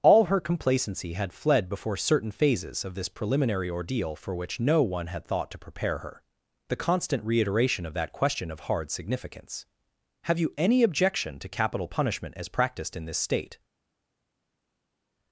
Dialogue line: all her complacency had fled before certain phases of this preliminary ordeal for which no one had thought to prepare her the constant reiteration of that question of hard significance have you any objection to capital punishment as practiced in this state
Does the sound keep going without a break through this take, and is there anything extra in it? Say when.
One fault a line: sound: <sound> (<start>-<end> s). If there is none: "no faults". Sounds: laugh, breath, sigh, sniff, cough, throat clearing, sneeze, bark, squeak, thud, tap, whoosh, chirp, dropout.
no faults